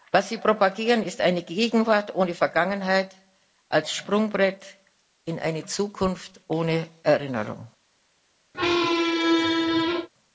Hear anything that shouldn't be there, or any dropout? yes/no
yes